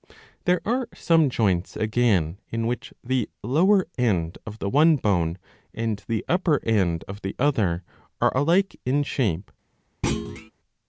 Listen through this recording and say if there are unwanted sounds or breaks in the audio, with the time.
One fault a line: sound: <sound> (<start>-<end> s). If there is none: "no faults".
sound: thud (10.0-10.5 s)